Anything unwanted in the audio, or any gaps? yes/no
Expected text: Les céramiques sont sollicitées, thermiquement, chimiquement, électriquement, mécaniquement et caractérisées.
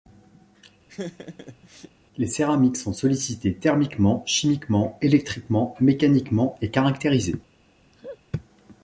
yes